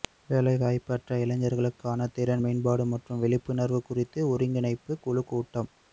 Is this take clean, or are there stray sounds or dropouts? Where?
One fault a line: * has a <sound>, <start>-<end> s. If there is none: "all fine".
all fine